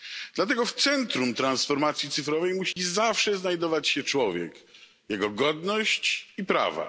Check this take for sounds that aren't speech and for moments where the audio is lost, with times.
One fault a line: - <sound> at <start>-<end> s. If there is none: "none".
- dropout at 2.7-2.8 s